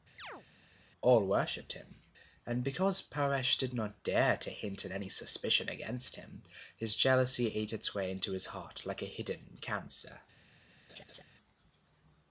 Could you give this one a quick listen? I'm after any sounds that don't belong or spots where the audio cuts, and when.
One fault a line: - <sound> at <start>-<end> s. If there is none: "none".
- chirp at 0.2-0.4 s
- laugh at 10.9-11.2 s